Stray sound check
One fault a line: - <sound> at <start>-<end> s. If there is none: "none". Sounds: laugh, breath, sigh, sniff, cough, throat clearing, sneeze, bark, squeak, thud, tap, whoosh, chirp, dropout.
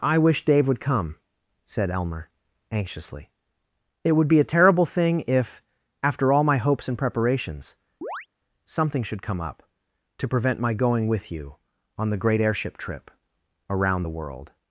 - chirp at 8.0-8.3 s